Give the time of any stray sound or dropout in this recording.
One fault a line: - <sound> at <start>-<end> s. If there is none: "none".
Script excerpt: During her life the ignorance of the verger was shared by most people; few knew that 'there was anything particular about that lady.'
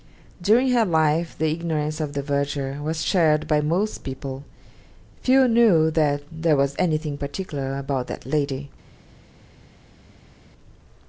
none